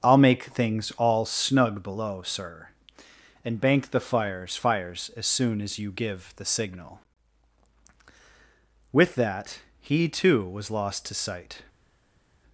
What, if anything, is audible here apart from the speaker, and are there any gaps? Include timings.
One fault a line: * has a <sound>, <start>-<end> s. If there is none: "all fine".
all fine